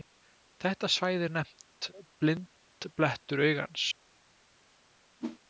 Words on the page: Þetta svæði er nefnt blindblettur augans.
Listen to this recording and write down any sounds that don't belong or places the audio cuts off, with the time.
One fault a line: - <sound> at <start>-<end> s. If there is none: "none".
- whoosh at 5.2-5.4 s